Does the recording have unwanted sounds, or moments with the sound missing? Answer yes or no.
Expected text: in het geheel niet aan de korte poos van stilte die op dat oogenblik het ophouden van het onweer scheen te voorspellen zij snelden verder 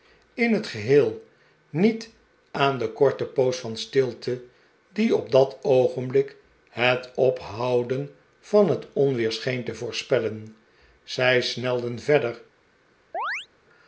yes